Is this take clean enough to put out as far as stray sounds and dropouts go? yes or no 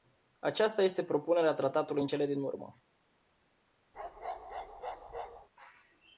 no